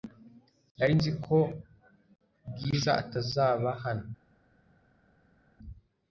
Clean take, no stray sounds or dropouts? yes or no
yes